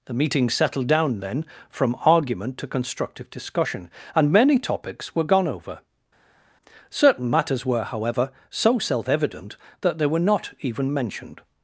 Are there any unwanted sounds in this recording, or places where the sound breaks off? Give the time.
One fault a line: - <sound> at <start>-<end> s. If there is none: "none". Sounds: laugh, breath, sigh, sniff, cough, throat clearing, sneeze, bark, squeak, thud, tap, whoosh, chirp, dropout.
none